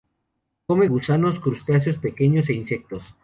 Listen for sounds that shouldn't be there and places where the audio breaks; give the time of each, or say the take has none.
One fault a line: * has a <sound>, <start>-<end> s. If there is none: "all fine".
all fine